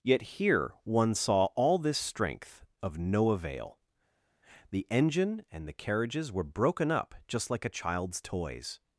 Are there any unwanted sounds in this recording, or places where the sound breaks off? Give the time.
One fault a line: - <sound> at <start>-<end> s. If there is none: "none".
none